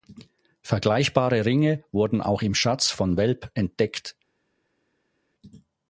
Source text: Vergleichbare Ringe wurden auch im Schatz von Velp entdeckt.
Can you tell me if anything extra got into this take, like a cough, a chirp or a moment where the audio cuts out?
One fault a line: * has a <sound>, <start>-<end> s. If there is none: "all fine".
all fine